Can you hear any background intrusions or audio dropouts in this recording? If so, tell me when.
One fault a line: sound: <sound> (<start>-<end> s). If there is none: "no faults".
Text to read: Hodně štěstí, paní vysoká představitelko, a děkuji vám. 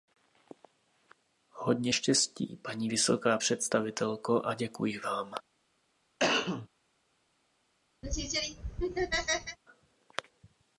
sound: cough (6.2-6.7 s)
sound: laugh (8.0-9.6 s)